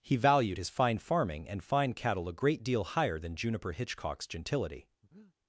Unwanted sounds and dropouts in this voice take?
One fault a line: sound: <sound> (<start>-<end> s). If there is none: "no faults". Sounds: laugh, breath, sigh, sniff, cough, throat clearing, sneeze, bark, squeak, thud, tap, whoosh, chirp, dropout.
sound: breath (5.0-5.4 s)